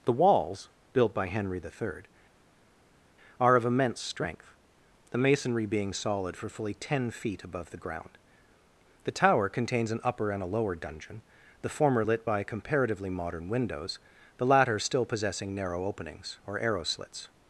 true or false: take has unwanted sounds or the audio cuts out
false